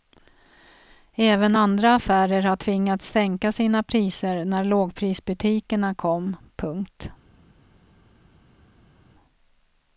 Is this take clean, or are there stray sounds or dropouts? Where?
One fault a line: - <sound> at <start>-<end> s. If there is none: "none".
none